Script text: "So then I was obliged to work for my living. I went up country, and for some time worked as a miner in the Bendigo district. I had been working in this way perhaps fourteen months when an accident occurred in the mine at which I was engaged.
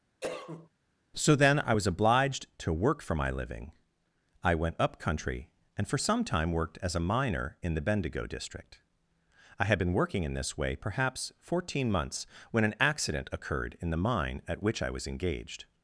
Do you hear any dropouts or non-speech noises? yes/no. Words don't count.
yes